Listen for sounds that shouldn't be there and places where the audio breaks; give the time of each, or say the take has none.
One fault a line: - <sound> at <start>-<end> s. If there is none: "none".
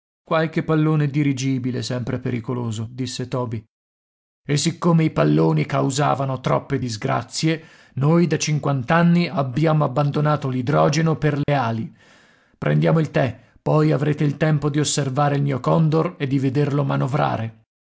- dropout at 11.4-11.5 s